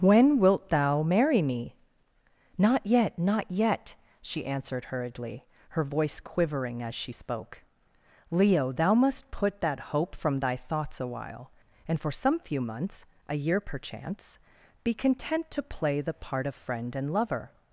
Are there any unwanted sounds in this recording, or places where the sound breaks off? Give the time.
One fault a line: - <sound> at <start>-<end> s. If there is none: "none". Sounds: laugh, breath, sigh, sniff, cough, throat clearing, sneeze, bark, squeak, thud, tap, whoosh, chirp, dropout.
none